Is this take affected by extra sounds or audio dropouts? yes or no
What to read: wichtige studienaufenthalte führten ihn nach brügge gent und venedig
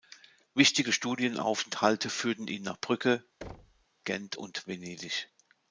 yes